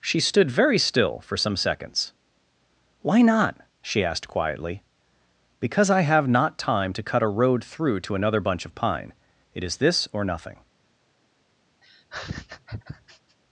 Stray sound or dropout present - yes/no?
yes